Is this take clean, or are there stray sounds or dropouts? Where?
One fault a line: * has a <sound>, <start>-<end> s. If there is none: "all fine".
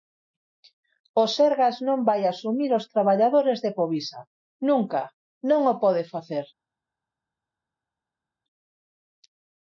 all fine